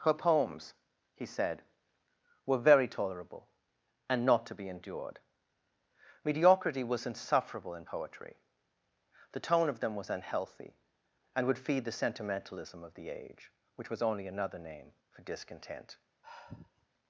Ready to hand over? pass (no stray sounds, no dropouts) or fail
fail